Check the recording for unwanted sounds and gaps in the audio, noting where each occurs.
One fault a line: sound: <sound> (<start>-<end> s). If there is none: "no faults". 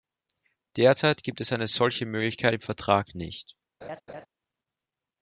sound: laugh (3.8-4.3 s)